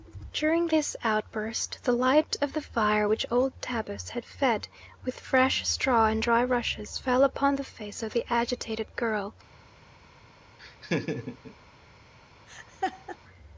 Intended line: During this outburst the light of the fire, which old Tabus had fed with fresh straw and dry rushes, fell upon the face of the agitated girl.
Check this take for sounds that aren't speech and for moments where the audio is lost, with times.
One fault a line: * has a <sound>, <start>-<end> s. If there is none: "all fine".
* has a laugh, 10.6-11.6 s
* has a laugh, 12.5-13.2 s